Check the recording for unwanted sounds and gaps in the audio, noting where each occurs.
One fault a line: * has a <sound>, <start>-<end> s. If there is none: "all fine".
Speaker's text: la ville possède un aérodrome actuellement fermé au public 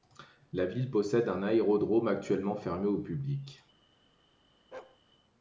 * has a bark, 4.7-5.0 s